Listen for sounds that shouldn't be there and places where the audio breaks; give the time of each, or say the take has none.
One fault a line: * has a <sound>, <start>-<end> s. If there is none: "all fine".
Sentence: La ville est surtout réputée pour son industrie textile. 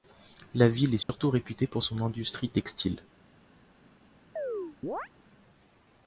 * has a dropout, 1.0-1.1 s
* has a chirp, 4.4-5.1 s